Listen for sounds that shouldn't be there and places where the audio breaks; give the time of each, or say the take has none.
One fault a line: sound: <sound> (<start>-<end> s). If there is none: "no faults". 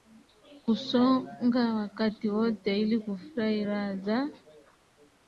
no faults